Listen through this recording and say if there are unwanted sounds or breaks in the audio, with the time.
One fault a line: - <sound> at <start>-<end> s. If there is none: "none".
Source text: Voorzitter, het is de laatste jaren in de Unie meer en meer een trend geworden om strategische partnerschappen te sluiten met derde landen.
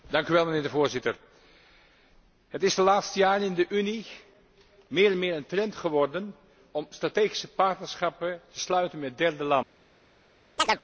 - chirp at 10.6-10.8 s